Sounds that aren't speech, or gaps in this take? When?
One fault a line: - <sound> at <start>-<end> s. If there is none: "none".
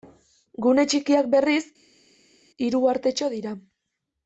none